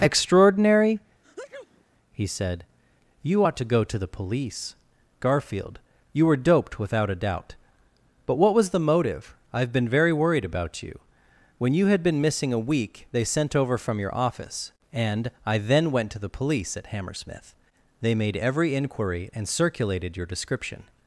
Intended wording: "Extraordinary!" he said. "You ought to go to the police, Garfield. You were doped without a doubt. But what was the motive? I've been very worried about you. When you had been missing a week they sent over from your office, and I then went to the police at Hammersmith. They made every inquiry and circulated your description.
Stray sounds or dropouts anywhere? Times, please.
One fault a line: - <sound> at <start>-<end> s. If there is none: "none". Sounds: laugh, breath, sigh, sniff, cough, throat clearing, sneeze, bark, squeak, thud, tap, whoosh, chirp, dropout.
- sneeze at 1.2-1.8 s